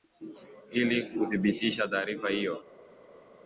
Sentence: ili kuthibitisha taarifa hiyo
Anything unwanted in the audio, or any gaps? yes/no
no